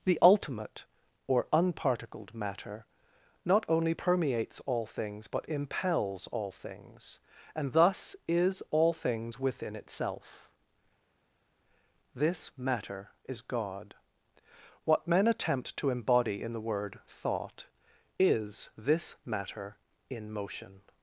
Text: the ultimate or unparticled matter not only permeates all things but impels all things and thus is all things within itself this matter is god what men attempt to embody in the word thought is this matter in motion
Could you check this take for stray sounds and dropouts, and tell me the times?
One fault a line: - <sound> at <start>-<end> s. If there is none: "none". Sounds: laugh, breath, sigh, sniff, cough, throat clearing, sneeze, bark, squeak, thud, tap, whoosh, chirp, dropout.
none